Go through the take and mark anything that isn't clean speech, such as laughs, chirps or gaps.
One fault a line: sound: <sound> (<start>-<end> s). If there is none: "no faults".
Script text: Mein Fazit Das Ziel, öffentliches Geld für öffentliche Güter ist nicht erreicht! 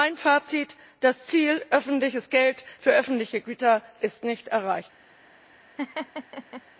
sound: laugh (5.8-6.6 s)